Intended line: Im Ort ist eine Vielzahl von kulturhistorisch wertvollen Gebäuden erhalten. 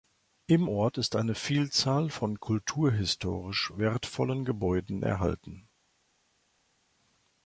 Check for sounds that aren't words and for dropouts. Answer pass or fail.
pass